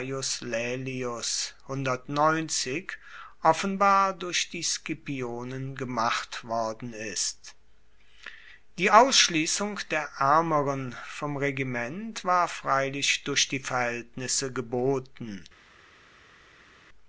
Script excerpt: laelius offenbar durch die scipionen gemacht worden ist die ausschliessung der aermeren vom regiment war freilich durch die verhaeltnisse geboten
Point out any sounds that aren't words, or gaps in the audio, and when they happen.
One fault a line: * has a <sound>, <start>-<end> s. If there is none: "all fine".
all fine